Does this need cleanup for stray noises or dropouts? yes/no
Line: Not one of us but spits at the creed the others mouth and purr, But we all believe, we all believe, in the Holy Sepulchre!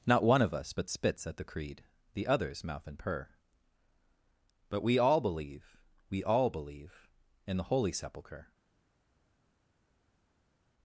no